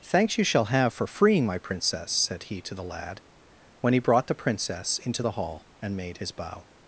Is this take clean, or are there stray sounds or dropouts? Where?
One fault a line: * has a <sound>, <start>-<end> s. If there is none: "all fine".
all fine